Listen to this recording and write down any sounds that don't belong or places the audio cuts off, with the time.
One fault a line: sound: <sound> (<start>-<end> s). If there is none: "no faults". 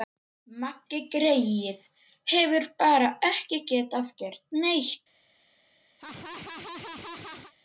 sound: laugh (6.0-7.5 s)